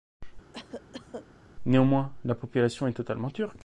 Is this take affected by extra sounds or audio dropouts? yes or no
yes